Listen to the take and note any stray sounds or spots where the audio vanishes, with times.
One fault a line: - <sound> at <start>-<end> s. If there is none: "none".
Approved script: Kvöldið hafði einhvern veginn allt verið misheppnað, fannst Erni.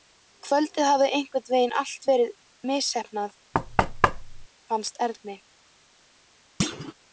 - thud at 3.5-4.5 s
- thud at 6.6-6.9 s